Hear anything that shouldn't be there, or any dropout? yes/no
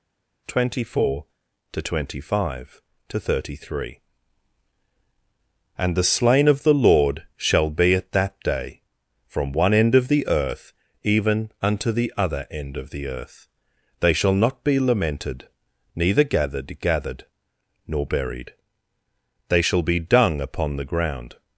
no